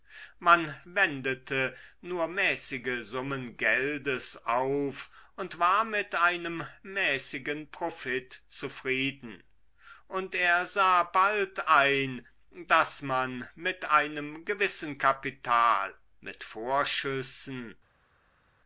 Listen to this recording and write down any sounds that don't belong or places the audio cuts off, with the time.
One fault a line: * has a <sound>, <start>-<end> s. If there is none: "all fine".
all fine